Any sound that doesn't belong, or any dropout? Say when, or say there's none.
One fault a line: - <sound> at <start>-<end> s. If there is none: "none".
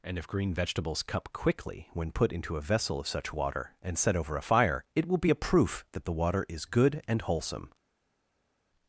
none